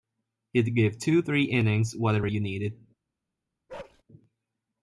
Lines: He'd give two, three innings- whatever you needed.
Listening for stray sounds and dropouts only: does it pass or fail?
fail